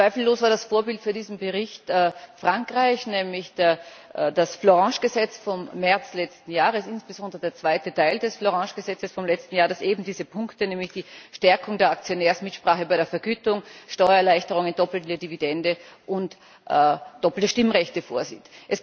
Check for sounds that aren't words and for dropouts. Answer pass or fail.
pass